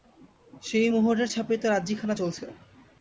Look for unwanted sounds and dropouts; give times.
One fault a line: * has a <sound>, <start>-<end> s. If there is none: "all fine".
all fine